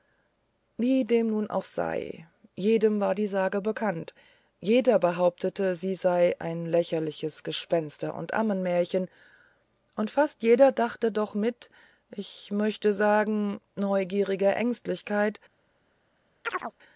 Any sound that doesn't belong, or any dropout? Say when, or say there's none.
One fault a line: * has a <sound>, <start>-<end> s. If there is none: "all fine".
* has a chirp, 16.4-16.7 s